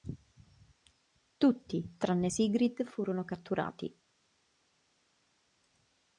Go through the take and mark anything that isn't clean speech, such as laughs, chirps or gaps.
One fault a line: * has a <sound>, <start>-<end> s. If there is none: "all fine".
all fine